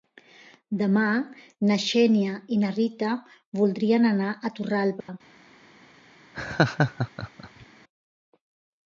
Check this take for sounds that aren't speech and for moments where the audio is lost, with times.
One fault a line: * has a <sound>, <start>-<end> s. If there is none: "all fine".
* has a dropout, 5.0-5.1 s
* has a laugh, 6.3-7.7 s